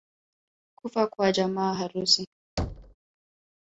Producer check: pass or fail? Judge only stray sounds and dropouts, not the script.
fail